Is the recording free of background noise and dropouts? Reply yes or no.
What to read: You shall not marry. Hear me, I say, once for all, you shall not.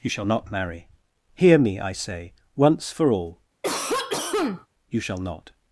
no